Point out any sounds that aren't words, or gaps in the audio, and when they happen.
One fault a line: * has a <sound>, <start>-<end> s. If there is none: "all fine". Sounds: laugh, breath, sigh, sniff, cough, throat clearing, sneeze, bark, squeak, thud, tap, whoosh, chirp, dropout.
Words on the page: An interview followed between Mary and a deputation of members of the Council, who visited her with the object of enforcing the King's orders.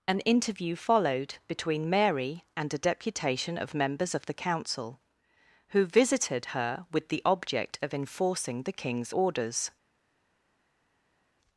all fine